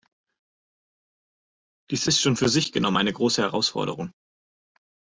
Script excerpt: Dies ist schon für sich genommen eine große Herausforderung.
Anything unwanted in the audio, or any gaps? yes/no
no